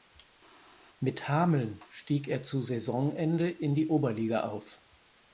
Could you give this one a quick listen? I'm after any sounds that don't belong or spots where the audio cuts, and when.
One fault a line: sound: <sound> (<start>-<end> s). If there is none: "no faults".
no faults